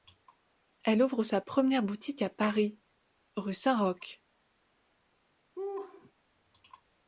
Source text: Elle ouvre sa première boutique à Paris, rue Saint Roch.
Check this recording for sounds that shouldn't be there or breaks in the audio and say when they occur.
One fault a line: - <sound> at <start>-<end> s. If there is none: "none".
- laugh at 5.6-6.1 s